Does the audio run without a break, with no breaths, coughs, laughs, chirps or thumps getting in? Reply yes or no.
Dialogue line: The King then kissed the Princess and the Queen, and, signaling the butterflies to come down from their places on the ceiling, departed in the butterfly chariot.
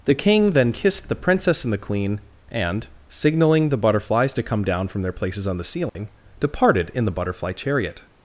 no